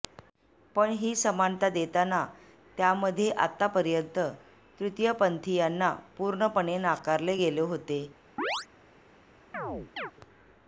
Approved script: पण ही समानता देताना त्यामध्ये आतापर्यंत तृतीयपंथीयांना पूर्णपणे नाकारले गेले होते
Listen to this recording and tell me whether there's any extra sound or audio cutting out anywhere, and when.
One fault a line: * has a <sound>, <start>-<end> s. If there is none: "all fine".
* has a chirp, 8.4-8.7 s
* has a chirp, 9.5-10.1 s